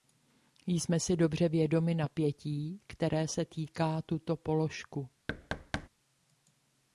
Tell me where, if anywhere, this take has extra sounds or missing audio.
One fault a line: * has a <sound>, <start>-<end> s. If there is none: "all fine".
* has a thud, 5.3-5.9 s